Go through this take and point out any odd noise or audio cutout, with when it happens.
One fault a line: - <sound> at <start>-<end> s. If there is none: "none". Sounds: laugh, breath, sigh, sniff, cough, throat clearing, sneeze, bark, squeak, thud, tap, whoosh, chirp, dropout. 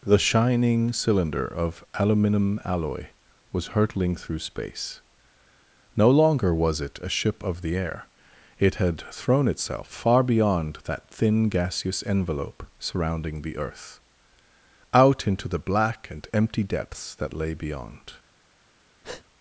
- breath at 19.0-19.3 s